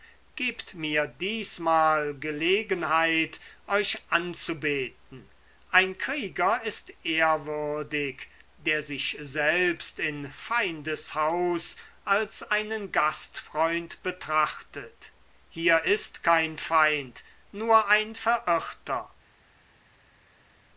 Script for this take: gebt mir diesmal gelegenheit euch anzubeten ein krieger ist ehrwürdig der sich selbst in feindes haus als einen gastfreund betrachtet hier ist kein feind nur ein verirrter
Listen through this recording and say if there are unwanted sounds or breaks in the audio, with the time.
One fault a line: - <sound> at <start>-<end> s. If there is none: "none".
none